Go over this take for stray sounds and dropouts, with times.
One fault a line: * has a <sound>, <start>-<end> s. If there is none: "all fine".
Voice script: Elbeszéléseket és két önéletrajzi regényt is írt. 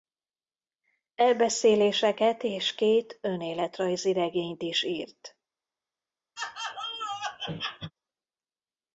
* has a laugh, 6.4-7.9 s